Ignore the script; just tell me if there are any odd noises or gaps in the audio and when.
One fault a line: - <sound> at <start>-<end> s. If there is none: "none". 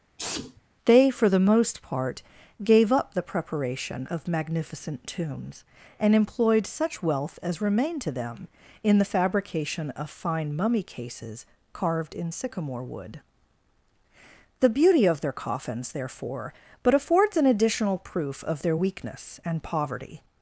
- sneeze at 0.2-0.6 s